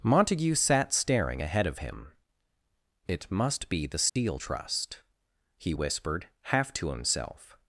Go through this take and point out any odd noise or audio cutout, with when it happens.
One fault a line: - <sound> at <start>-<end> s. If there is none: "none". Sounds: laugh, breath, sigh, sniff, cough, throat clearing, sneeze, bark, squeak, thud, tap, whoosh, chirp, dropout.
- dropout at 4.1-4.2 s